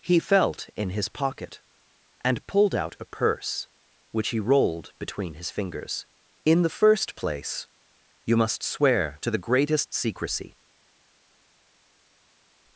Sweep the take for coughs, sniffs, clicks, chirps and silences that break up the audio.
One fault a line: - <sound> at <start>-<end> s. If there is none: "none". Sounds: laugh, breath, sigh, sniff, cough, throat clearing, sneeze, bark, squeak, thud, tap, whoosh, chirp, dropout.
none